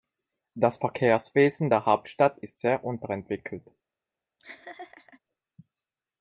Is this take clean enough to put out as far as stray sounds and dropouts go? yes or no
no